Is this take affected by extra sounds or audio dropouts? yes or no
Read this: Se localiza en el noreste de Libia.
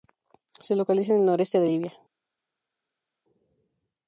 no